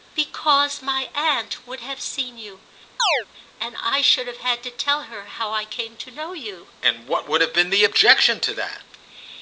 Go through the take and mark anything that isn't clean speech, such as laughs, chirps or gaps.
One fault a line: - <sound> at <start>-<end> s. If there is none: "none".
- chirp at 3.0-3.3 s